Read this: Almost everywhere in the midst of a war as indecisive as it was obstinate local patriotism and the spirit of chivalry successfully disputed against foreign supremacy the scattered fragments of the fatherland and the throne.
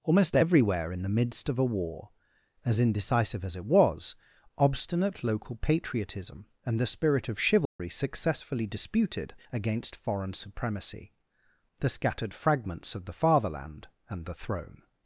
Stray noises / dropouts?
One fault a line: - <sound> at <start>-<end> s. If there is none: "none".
- dropout at 7.7-7.8 s